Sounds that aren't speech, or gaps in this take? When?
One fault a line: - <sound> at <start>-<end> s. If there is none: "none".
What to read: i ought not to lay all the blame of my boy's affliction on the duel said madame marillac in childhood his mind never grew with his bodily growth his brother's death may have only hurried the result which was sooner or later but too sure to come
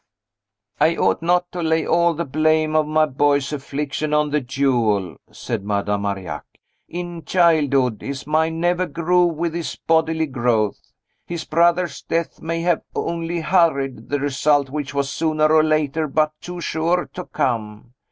none